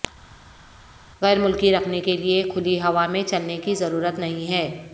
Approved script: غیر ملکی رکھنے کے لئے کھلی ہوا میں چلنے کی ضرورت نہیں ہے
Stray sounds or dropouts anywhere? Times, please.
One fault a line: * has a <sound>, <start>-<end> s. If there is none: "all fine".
all fine